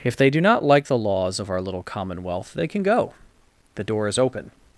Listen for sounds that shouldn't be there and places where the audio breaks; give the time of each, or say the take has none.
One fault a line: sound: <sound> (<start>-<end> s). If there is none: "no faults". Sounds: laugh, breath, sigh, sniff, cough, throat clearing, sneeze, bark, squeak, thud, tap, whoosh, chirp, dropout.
no faults